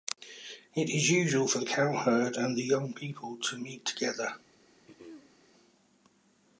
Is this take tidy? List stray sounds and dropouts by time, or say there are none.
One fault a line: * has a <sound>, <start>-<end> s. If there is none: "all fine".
* has a throat clearing, 4.9-5.4 s